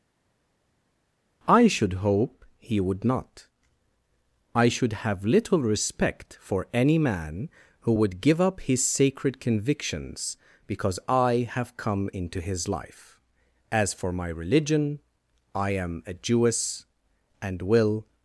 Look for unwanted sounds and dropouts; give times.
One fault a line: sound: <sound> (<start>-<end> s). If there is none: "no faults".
no faults